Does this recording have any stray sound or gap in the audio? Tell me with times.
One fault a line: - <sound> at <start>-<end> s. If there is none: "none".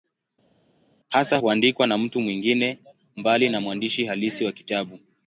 none